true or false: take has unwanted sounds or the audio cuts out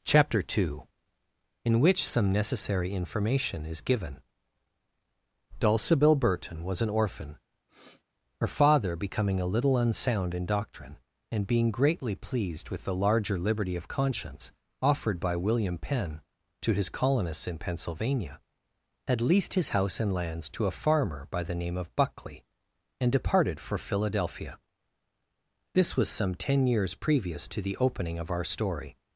true